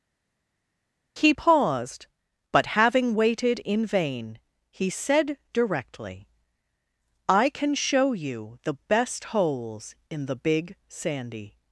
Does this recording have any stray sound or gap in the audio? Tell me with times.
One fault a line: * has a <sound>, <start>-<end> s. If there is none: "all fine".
all fine